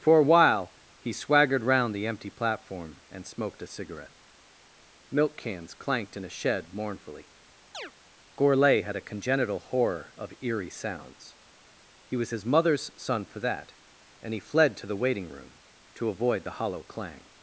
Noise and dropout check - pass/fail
fail